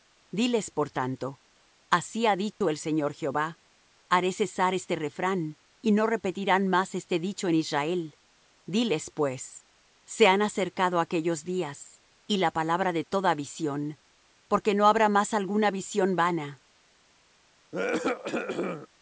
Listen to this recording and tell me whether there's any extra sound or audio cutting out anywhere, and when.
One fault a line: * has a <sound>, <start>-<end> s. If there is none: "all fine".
* has a dropout, 2.5-2.6 s
* has a cough, 17.7-18.9 s